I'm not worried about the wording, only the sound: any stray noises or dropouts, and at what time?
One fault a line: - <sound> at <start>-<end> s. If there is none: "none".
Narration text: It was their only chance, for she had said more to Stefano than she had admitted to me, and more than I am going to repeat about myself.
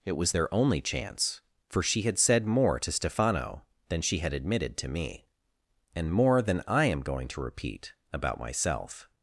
none